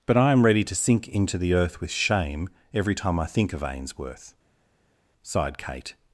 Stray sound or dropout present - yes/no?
no